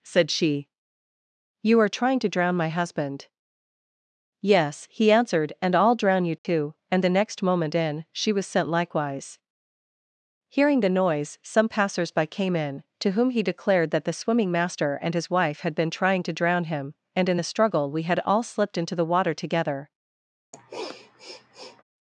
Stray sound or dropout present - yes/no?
yes